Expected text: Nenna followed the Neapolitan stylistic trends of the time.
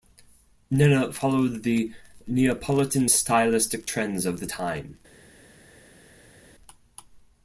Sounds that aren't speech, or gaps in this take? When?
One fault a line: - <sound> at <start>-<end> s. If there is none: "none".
none